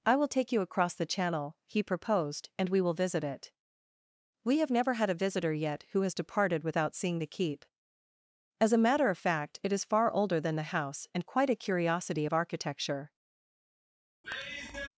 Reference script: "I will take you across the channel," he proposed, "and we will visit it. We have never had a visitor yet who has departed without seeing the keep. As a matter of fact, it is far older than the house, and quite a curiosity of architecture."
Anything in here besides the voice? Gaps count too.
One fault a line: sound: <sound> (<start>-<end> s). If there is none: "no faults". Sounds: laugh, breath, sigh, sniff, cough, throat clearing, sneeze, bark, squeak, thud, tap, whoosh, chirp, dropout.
sound: sigh (14.2-14.9 s)